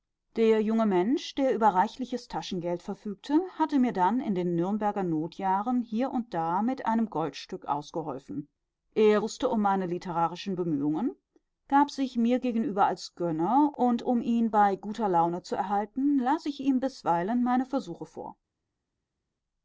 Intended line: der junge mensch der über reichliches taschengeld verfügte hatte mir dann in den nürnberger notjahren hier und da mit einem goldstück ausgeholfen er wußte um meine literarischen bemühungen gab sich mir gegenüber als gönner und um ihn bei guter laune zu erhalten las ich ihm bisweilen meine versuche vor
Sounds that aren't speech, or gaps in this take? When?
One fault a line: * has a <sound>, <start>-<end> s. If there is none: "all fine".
all fine